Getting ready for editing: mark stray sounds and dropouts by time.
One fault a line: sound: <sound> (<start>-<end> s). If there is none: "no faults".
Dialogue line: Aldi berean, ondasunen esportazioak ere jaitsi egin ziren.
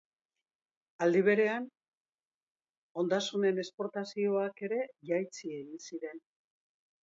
no faults